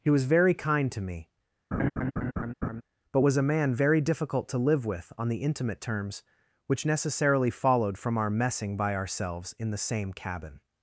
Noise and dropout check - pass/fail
fail